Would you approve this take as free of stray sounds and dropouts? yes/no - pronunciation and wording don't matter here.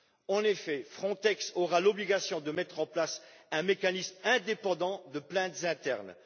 yes